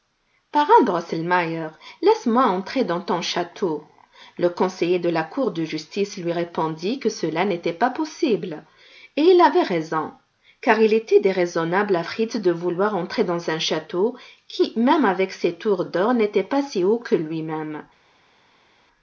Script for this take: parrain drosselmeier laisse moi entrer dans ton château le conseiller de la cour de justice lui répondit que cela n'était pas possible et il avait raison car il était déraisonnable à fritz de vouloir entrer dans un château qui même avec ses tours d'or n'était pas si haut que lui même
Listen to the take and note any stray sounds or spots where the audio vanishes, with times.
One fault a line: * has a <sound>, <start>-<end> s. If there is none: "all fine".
all fine